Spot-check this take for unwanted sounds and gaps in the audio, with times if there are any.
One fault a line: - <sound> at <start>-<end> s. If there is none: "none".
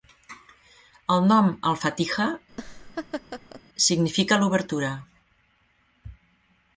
- laugh at 2.5-3.6 s